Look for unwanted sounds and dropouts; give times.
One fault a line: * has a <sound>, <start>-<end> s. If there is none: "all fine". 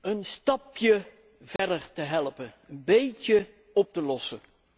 * has a dropout, 1.6-1.6 s